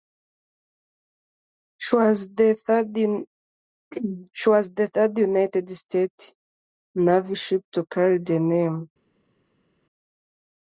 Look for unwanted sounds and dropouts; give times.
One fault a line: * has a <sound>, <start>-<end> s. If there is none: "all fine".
all fine